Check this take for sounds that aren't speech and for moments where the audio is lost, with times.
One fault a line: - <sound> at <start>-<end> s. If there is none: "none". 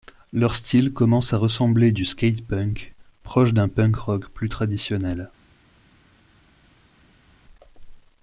none